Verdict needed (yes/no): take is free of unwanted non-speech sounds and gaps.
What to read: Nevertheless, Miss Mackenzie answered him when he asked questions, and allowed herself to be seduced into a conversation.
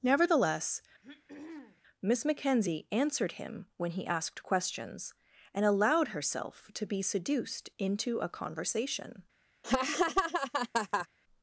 no